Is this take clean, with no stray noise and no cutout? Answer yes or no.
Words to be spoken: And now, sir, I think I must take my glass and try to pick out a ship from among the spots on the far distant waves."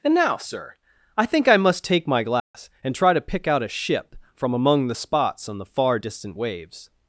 no